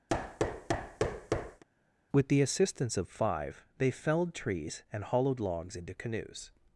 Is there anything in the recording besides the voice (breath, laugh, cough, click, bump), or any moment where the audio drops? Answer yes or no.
yes